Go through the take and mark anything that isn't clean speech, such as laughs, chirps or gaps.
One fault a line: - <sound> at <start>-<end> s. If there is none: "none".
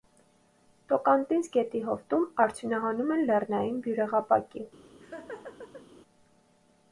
- laugh at 4.9-5.9 s